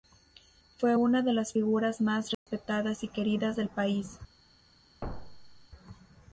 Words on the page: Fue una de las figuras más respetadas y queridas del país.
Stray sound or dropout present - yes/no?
yes